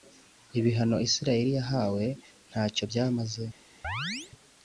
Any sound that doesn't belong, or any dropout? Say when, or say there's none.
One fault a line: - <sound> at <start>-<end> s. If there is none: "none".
- chirp at 3.8-4.3 s